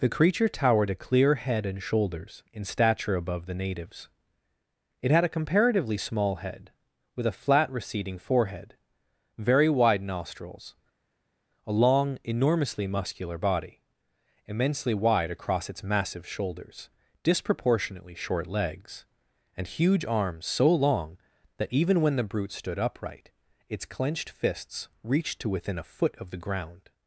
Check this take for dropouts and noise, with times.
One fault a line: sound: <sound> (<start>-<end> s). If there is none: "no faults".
no faults